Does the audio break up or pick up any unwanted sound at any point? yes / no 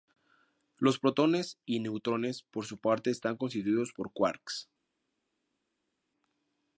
no